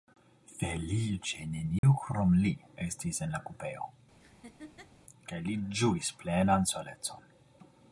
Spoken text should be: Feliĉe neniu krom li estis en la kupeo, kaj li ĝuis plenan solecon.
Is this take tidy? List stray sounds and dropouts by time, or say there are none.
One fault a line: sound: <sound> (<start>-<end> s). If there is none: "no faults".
sound: dropout (1.8-1.8 s)
sound: laugh (4.2-4.9 s)